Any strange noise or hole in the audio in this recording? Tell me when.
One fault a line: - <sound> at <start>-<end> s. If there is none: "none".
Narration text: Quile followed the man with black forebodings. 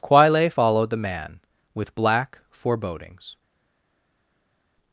none